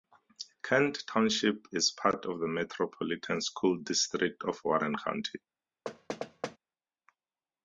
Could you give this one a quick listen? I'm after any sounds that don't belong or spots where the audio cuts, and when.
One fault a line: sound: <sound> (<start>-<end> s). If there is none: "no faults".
sound: thud (5.9-6.6 s)